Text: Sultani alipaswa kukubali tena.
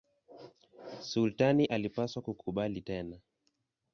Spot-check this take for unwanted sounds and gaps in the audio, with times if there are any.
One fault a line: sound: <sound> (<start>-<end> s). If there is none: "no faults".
no faults